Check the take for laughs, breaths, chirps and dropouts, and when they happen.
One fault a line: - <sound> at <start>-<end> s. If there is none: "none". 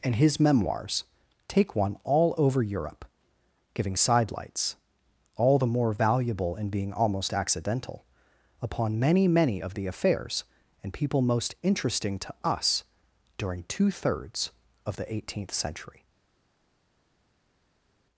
none